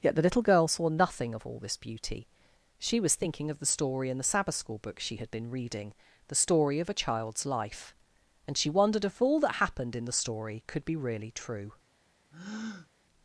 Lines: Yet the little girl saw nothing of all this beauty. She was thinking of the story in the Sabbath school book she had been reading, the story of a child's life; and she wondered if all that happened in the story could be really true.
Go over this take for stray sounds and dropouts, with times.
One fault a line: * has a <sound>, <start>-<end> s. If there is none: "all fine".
* has a breath, 12.3-12.9 s